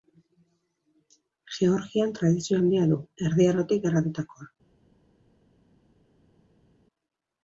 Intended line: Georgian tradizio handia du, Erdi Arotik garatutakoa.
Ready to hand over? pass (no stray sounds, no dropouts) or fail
pass